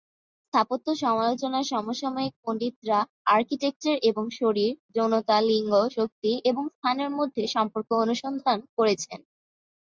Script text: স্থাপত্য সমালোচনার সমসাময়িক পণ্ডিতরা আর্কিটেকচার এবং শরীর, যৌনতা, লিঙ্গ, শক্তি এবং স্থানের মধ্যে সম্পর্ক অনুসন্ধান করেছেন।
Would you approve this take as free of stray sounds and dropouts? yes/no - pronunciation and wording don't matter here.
yes